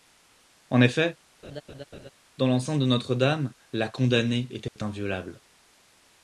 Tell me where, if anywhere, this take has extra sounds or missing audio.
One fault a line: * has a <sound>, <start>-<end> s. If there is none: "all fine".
* has a laugh, 1.4-2.1 s
* has a dropout, 4.7-4.8 s